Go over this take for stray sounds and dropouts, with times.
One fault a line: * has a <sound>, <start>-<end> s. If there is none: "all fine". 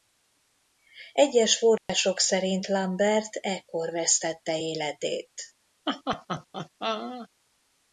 * has a dropout, 1.8-1.9 s
* has a laugh, 5.9-7.3 s